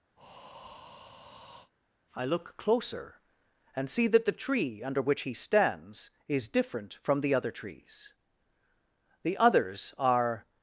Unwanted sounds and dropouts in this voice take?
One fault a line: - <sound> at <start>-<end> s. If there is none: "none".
- breath at 0.2-1.7 s